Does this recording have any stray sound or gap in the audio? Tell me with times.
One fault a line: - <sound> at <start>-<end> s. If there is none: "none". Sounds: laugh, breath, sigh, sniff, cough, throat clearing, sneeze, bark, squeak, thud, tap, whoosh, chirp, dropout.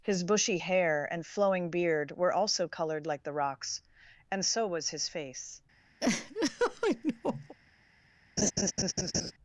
- laugh at 6.0-7.5 s
- laugh at 8.4-9.3 s